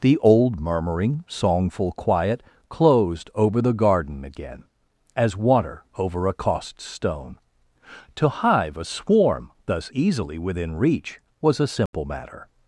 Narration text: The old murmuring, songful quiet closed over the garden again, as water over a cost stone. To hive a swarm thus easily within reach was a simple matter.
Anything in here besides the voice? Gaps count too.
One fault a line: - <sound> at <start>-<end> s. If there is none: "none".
- dropout at 11.9-11.9 s